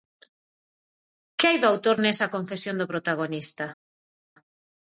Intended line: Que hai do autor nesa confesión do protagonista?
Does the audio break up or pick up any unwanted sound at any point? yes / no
no